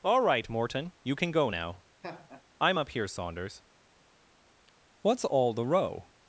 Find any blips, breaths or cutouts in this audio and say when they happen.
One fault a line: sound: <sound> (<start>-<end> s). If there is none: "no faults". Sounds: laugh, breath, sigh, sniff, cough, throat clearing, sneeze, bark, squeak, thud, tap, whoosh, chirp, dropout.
sound: laugh (2.0-2.4 s)